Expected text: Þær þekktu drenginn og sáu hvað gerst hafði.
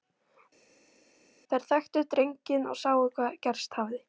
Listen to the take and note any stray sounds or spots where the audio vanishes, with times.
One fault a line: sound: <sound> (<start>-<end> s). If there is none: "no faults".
no faults